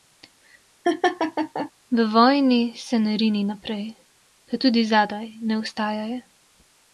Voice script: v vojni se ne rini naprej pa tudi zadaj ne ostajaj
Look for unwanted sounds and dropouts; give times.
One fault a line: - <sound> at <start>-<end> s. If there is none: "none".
- laugh at 0.8-1.7 s